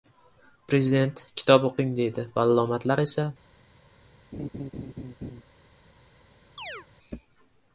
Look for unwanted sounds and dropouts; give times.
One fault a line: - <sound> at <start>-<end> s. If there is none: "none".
- laugh at 4.3-5.4 s
- chirp at 6.6-6.9 s